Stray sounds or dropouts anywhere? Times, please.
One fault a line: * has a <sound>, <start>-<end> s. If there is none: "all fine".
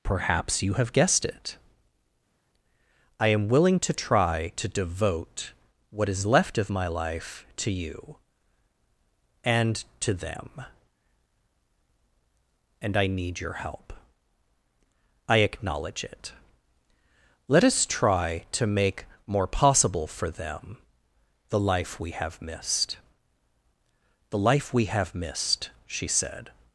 all fine